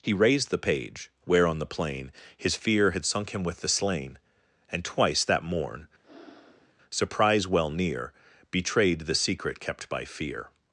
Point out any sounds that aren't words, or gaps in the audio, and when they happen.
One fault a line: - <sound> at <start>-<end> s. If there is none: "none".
- breath at 6.0-6.7 s